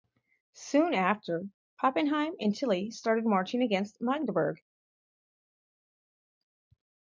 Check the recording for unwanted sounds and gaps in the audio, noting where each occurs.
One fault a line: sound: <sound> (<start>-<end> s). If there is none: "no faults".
no faults